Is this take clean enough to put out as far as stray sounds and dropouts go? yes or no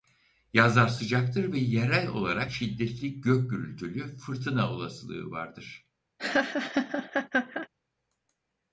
no